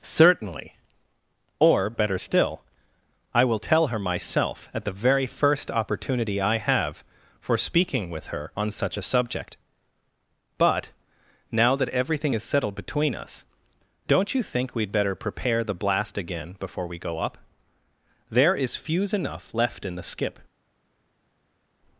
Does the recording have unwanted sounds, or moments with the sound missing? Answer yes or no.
no